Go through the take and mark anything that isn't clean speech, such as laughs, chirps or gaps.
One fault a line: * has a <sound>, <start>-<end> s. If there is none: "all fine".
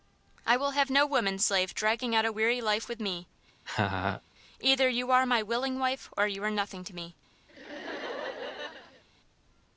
* has a laugh, 3.7-4.2 s
* has a laugh, 7.5-9.0 s